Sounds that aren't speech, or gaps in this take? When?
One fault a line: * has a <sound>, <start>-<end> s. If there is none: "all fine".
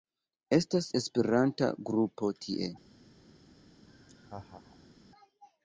* has a laugh, 3.9-4.9 s